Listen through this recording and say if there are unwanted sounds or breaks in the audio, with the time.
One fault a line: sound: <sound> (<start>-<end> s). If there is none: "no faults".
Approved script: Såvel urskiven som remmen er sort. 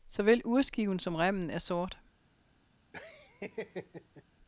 sound: laugh (2.9-4.2 s)